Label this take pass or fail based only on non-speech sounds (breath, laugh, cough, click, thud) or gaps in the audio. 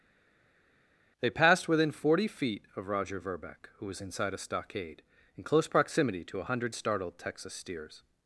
pass